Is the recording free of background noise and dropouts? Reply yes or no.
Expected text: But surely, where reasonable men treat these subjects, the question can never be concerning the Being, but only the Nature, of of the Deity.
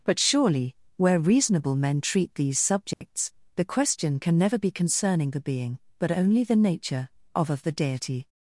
no